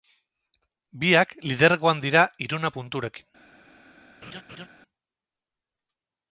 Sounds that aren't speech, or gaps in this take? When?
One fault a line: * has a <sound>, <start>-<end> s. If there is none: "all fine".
* has a laugh, 4.2-4.7 s